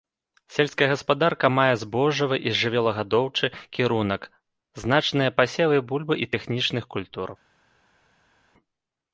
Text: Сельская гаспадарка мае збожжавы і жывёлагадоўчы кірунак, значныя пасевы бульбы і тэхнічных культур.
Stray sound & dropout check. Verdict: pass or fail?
pass